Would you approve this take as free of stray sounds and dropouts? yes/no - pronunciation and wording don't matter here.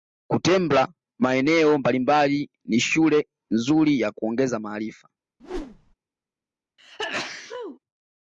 no